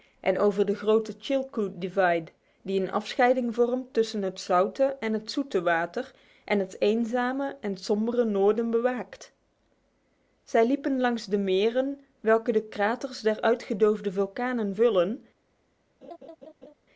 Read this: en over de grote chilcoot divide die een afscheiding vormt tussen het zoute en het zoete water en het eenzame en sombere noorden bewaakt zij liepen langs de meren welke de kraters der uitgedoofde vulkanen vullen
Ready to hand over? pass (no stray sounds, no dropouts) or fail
fail